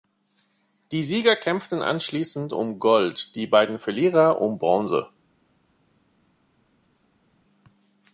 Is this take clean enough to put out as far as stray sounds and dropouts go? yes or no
yes